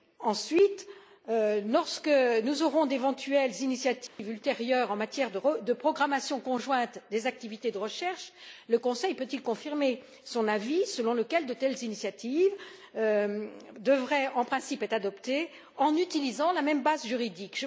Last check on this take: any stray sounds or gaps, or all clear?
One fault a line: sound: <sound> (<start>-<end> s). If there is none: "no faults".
sound: dropout (4.1-4.2 s)